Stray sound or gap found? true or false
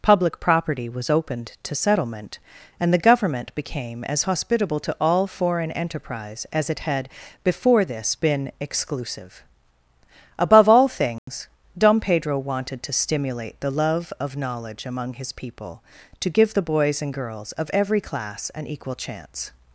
true